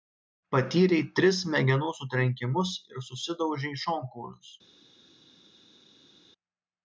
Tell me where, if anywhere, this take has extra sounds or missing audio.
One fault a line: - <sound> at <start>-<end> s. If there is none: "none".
none